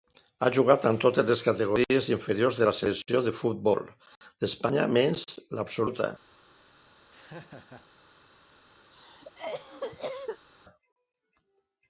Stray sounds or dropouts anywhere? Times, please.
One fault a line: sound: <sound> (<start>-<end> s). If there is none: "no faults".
sound: laugh (7.1-7.9 s)
sound: cough (8.9-10.5 s)